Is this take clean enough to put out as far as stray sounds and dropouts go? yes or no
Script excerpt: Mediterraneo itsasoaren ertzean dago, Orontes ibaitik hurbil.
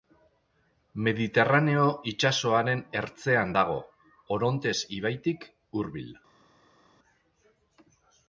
yes